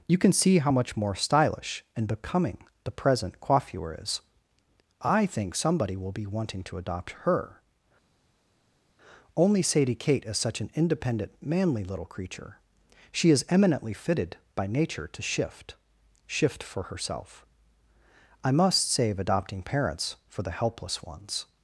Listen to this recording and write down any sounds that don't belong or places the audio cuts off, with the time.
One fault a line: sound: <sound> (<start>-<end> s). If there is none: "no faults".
no faults